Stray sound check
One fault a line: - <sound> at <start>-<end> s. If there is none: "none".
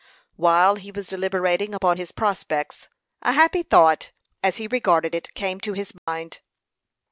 - dropout at 6.0-6.1 s